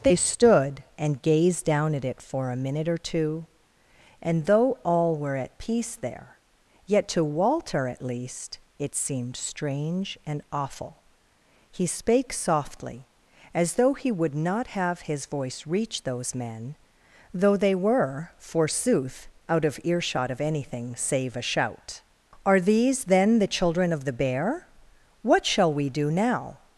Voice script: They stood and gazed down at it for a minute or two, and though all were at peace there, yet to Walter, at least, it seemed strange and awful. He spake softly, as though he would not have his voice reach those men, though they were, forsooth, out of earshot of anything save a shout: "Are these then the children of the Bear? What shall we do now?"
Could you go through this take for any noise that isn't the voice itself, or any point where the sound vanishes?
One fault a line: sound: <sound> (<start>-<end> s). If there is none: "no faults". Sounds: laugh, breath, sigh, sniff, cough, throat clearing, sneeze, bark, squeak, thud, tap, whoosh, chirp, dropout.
no faults